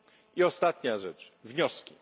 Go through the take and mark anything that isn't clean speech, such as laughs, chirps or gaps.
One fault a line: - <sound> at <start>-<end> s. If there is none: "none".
none